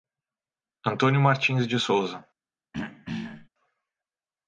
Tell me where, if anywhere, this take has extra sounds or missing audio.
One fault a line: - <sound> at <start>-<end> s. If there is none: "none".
- throat clearing at 2.7-3.5 s